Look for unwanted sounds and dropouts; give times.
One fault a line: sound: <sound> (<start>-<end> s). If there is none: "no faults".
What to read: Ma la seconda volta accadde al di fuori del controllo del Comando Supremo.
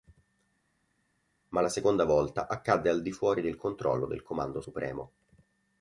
no faults